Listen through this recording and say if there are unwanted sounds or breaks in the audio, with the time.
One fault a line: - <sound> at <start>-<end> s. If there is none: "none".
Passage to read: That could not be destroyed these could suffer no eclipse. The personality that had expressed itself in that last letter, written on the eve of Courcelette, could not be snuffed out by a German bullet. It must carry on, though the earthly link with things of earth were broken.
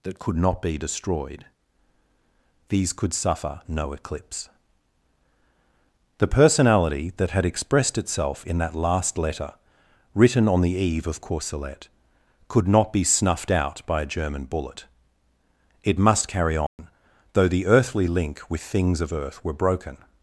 - dropout at 16.7-16.8 s